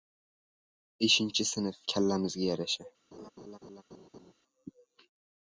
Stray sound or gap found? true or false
true